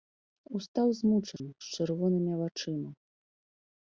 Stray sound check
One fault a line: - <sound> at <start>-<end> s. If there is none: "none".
- dropout at 1.4-1.4 s